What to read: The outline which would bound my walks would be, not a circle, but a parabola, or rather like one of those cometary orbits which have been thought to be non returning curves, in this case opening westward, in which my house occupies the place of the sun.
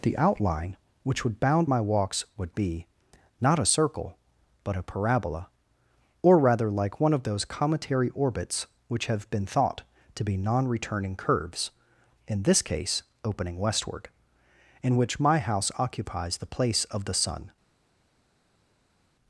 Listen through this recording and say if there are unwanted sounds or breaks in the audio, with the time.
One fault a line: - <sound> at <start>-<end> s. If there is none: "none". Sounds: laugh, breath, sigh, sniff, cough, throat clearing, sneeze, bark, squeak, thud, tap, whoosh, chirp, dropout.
none